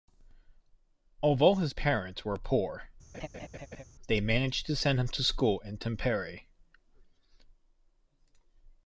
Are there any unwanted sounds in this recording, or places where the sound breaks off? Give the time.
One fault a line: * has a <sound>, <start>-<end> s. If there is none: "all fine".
* has a laugh, 3.1-3.8 s